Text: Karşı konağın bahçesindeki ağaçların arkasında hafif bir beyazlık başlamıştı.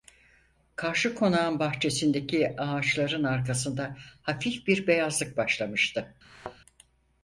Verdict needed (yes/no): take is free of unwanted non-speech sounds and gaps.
no